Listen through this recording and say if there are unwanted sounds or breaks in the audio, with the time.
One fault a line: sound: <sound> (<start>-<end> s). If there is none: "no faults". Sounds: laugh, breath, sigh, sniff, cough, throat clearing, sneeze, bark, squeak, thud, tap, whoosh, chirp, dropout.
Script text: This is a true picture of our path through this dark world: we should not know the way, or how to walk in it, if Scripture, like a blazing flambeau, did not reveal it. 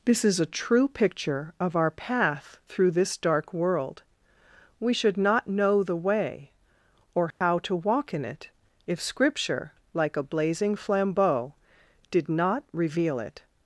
sound: dropout (7.3-7.4 s)